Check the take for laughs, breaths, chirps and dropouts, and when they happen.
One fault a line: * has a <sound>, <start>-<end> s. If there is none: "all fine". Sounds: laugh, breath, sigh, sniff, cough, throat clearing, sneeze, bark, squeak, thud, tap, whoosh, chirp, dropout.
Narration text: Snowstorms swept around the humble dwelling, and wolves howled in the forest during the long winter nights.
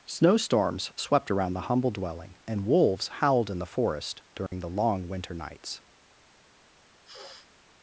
* has a dropout, 4.5-4.5 s
* has a sniff, 7.0-7.5 s